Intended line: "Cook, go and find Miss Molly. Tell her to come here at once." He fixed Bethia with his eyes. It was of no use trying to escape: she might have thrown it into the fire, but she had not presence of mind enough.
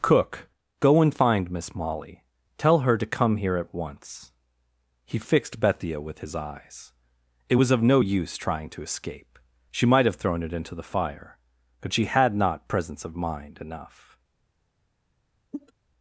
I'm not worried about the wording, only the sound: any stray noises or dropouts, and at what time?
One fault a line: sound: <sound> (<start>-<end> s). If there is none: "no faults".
sound: cough (15.5-15.7 s)